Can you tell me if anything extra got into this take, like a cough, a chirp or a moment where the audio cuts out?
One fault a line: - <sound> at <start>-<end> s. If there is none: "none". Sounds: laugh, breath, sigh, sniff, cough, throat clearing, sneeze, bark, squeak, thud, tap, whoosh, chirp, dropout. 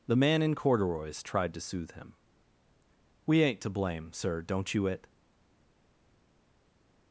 none